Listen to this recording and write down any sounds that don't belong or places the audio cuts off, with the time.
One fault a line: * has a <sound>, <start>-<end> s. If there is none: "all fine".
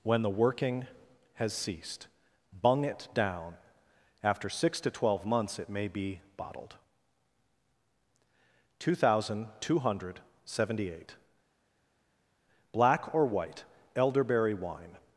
all fine